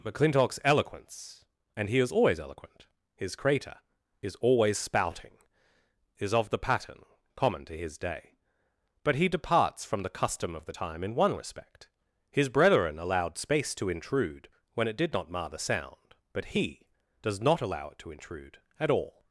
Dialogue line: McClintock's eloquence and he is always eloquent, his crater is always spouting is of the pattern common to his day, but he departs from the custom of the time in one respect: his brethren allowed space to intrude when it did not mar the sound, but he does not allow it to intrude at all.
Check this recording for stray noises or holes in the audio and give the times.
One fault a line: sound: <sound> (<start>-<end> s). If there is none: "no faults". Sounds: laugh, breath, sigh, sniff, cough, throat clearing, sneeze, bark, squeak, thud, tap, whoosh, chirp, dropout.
no faults